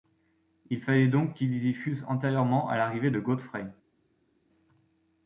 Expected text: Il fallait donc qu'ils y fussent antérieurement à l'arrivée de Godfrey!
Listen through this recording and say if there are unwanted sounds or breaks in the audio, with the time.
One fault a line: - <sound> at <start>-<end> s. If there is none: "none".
none